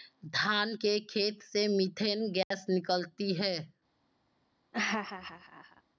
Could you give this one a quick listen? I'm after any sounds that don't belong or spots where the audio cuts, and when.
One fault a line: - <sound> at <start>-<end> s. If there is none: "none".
- dropout at 2.4-2.5 s
- laugh at 4.7-5.8 s